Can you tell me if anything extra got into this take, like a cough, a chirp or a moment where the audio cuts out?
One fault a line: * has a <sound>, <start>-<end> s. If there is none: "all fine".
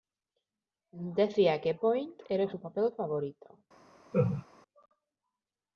* has a laugh, 4.1-4.5 s